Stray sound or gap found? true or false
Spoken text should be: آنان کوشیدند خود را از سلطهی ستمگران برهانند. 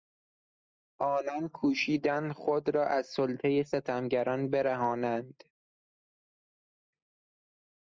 false